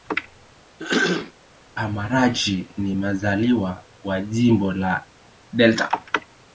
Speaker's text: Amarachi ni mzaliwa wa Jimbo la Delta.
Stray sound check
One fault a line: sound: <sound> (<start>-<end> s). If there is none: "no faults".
sound: throat clearing (0.8-1.3 s)